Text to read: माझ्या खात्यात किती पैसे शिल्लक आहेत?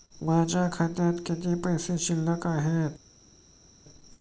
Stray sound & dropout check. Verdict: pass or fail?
pass